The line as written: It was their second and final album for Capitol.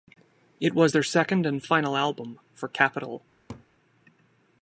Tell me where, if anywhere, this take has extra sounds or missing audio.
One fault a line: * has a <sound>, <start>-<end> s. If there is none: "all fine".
* has a laugh, 3.5-3.7 s